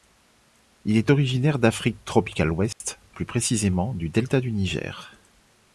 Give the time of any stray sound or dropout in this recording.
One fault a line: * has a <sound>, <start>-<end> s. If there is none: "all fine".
* has a dropout, 2.7-2.8 s